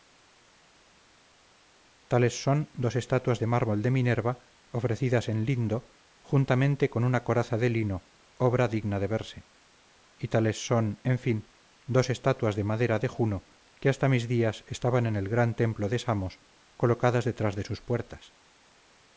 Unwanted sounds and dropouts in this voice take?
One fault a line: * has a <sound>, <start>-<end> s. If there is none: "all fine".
all fine